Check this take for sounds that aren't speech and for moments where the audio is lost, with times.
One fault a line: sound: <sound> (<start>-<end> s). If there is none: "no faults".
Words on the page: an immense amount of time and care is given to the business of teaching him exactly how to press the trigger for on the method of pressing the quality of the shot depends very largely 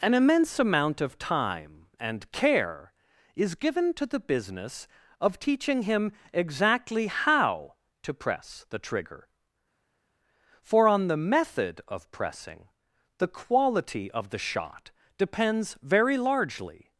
no faults